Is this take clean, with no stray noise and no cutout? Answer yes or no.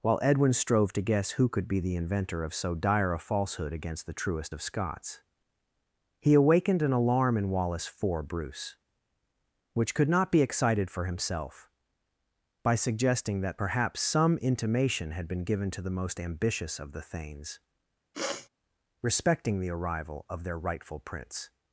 no